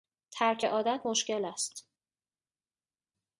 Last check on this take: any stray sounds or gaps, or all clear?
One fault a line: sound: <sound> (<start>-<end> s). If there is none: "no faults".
no faults